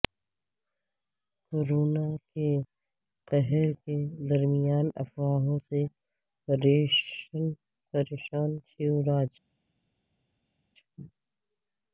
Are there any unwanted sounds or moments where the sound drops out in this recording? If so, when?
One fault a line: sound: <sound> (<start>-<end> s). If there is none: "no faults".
no faults